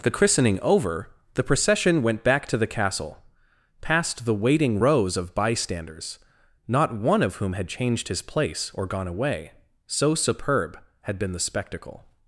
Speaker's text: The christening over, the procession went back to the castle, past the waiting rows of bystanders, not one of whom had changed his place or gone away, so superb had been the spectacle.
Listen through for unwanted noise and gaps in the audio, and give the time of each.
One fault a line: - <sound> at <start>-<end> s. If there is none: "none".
none